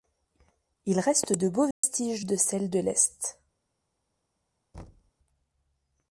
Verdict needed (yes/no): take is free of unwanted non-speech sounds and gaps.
no